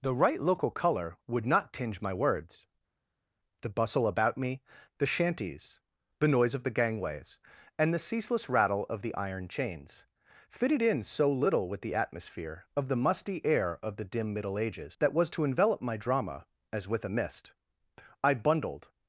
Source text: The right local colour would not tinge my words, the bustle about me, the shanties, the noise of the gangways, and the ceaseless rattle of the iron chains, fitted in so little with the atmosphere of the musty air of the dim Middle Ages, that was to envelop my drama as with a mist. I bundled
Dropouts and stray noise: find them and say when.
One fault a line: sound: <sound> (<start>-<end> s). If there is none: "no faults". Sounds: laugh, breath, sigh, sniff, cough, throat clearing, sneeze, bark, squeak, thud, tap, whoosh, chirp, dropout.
no faults